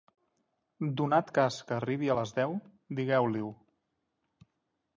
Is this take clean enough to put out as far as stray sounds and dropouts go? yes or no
yes